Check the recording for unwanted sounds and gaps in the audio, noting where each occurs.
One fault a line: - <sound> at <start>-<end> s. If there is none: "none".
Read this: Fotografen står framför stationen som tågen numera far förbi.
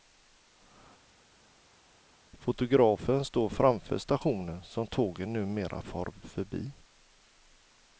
none